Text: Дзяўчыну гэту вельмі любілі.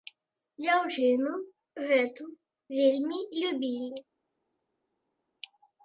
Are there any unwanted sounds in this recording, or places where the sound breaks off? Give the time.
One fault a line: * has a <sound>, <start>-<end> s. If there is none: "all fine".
all fine